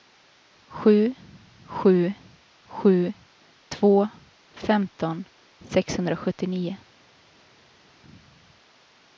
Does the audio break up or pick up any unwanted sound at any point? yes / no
no